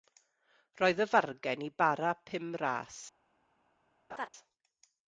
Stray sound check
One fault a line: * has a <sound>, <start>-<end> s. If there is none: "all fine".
* has a laugh, 4.1-4.3 s